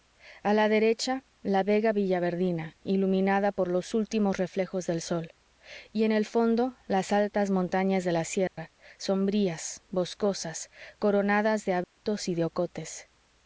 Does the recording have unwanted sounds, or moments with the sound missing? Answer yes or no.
yes